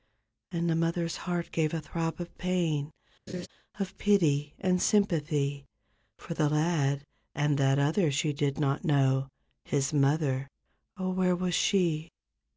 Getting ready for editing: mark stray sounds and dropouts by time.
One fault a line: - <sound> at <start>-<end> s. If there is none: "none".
- laugh at 3.3-3.5 s